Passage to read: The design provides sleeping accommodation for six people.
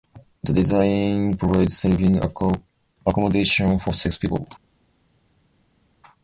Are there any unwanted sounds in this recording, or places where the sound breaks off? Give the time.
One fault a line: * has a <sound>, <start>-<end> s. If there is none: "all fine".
all fine